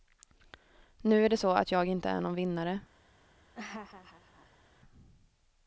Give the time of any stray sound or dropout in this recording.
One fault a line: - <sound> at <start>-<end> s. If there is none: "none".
- laugh at 3.5-4.6 s